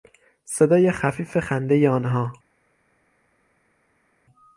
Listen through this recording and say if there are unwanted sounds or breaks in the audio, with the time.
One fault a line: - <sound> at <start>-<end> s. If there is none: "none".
none